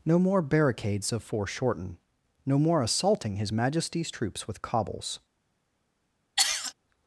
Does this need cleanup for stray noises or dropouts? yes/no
yes